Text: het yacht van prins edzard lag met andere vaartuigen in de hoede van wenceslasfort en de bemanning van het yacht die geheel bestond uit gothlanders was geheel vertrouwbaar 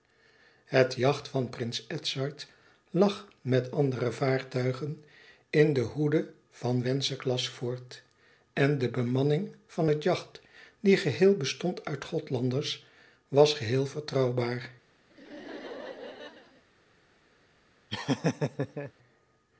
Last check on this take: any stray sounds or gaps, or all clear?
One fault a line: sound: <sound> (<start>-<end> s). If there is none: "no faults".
sound: laugh (15.1-16.6 s)
sound: laugh (17.9-18.9 s)